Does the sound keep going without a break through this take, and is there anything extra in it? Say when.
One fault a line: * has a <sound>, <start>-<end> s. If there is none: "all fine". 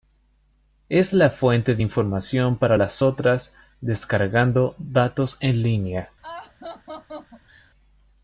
* has a laugh, 6.2-7.7 s